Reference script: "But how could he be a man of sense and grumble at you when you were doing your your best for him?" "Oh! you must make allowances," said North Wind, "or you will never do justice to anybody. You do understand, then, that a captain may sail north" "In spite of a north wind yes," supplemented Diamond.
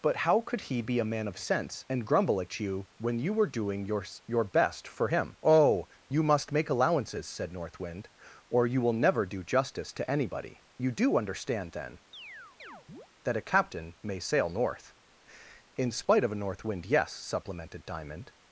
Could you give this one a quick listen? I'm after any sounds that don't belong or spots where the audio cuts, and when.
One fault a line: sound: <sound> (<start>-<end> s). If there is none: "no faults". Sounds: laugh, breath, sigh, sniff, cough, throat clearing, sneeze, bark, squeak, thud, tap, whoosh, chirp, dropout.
sound: chirp (12.1-13.1 s)